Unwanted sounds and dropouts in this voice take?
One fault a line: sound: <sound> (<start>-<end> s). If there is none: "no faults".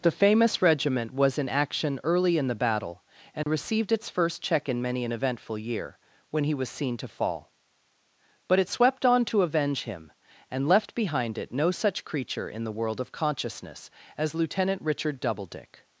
sound: dropout (3.4-3.5 s)